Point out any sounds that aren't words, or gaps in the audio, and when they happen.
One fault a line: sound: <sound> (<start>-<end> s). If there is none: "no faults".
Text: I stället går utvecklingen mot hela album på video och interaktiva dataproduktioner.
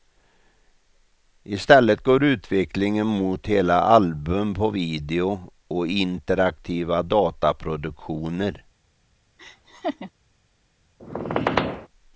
sound: laugh (9.4-10.1 s)
sound: squeak (11.0-11.9 s)